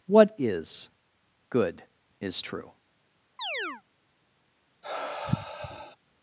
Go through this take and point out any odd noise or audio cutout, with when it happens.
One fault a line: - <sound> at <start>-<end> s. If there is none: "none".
- chirp at 3.4-3.8 s
- sigh at 4.8-6.0 s